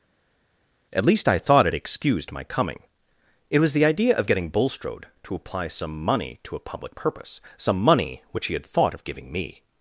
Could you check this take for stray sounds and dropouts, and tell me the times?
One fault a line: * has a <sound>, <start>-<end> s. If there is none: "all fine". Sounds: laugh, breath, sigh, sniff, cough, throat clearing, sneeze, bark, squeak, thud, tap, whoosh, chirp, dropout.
all fine